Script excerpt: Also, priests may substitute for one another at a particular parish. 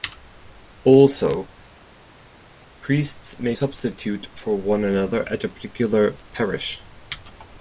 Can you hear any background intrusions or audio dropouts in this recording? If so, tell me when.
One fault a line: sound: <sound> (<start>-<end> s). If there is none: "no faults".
no faults